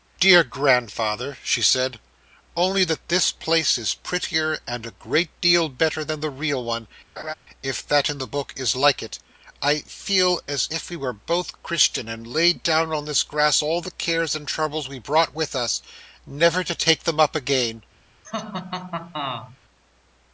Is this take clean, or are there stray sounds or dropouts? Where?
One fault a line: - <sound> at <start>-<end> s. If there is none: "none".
- laugh at 7.2-7.3 s
- laugh at 18.2-19.6 s